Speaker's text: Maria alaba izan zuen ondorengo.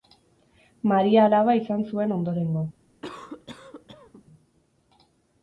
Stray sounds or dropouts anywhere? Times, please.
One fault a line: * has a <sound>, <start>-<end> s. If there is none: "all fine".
* has a cough, 3.0-4.3 s